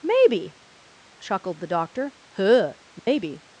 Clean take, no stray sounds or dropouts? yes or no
no